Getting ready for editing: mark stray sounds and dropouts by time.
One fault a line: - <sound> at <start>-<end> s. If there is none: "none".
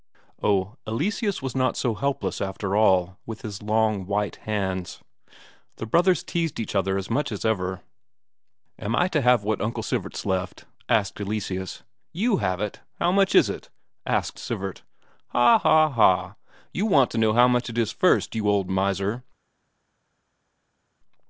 none